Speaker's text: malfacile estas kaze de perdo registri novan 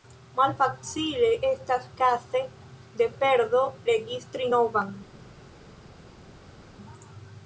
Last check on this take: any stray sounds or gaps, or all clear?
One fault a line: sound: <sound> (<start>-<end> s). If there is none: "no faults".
no faults